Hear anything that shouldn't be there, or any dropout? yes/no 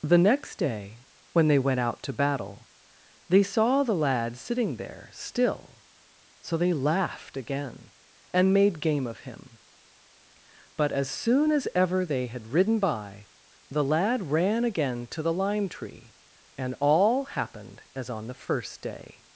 no